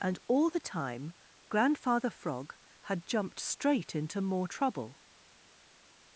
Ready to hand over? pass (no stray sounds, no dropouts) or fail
pass